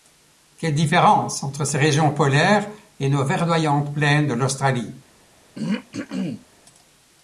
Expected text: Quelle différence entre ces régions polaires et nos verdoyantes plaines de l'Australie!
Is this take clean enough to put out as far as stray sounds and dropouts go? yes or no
no